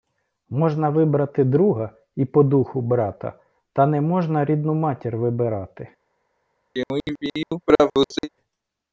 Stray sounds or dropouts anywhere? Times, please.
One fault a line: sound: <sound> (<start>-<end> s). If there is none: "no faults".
sound: throat clearing (6.7-8.3 s)